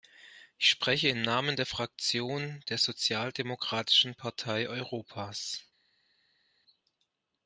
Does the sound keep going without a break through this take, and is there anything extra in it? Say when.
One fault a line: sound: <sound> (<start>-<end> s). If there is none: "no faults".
no faults